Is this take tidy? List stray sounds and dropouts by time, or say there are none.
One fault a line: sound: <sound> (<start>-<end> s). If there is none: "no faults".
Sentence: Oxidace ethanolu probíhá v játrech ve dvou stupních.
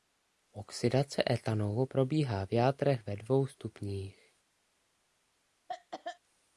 sound: cough (5.7-6.2 s)